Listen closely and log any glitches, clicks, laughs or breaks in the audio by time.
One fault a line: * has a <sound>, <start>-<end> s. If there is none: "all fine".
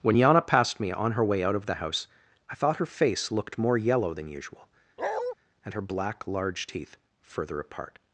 * has a bark, 5.0-5.3 s